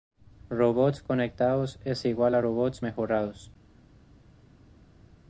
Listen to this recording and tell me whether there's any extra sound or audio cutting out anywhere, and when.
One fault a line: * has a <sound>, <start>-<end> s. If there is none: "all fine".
all fine